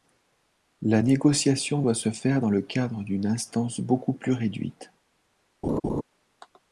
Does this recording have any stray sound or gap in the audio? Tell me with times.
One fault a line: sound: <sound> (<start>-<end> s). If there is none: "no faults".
sound: laugh (5.6-6.0 s)